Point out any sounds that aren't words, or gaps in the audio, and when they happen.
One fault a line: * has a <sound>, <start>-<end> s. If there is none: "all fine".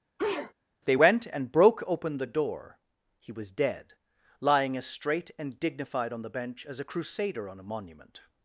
* has a sneeze, 0.2-0.5 s